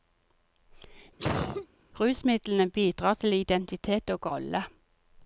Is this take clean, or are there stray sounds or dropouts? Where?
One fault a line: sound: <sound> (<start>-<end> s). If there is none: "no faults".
sound: cough (1.2-1.7 s)